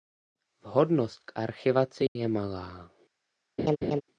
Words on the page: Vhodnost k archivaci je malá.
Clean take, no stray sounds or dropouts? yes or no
no